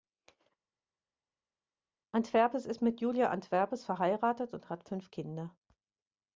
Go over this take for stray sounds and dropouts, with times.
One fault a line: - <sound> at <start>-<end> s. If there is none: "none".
none